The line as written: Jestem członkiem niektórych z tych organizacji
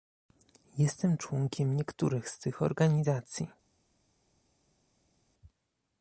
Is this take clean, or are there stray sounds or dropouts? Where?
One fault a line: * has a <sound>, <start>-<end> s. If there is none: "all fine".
all fine